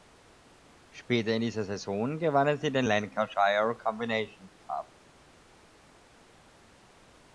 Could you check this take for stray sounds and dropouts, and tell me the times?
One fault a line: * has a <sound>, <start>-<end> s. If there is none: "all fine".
all fine